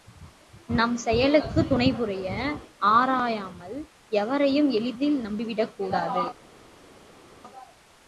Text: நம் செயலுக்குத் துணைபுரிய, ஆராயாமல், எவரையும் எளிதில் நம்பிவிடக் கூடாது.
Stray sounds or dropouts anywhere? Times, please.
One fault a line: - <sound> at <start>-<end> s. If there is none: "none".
none